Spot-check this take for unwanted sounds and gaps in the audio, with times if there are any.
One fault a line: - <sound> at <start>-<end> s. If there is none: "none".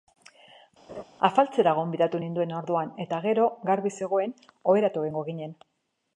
- laugh at 0.9-1.0 s